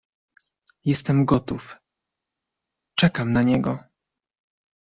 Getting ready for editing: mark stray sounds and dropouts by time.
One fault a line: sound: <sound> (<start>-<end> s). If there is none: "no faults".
no faults